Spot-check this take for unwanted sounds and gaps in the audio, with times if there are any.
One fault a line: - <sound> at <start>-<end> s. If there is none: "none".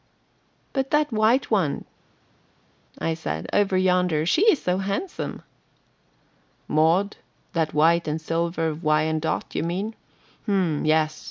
none